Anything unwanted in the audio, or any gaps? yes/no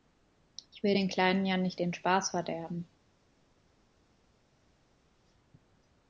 no